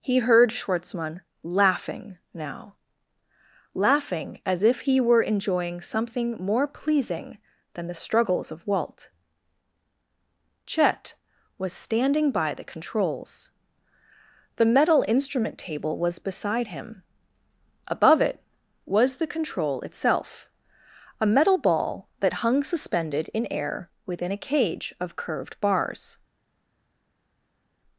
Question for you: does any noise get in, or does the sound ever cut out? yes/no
no